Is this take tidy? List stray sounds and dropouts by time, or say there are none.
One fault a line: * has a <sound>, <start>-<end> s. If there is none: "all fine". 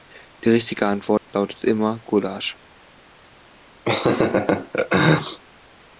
* has a dropout, 1.2-1.3 s
* has a laugh, 3.9-5.4 s